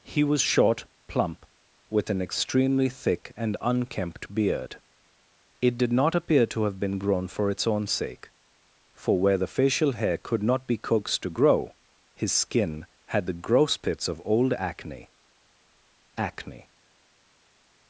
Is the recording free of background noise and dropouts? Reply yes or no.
yes